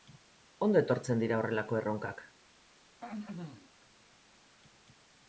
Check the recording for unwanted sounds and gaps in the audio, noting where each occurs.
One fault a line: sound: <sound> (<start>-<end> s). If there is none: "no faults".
sound: throat clearing (3.0-3.7 s)